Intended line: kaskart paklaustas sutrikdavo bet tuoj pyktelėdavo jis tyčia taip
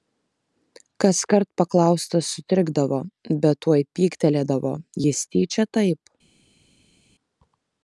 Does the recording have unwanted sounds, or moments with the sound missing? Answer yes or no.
no